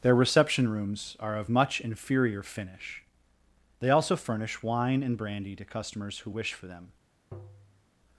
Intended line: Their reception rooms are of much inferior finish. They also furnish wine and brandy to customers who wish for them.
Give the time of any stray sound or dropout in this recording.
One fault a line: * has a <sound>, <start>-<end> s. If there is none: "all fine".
* has a tap, 7.3-7.9 s